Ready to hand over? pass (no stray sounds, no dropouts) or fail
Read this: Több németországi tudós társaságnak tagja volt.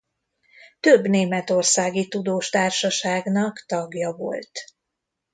pass